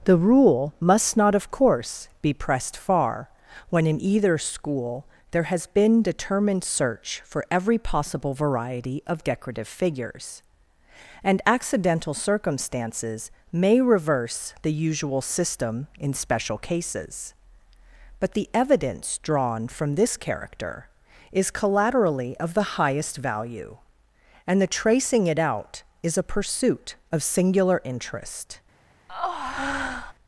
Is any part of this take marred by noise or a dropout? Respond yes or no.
yes